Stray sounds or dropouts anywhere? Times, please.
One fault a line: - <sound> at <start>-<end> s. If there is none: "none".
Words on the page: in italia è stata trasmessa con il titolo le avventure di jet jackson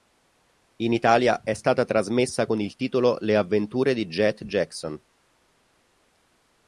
none